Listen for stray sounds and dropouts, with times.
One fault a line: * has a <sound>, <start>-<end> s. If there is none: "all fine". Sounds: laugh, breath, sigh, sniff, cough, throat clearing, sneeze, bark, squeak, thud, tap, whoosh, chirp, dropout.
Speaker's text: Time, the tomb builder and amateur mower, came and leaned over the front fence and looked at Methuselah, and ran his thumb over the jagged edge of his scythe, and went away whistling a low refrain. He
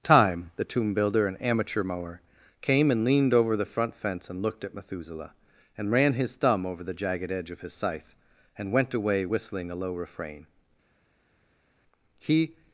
all fine